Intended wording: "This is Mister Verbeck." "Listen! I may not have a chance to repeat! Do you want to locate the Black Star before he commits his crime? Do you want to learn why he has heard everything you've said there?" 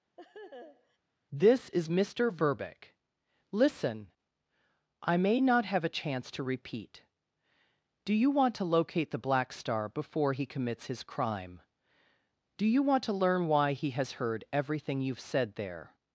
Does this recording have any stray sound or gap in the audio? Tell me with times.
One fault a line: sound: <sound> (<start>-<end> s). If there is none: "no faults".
sound: laugh (0.2-1.0 s)